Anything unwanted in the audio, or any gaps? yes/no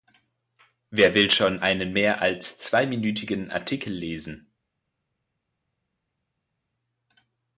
no